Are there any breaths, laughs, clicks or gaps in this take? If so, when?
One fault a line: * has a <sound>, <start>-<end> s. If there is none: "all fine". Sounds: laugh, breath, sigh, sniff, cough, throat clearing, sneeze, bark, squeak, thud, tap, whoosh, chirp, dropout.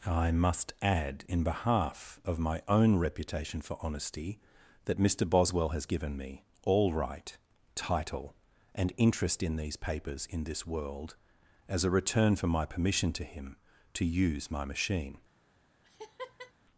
* has a laugh, 15.8-16.5 s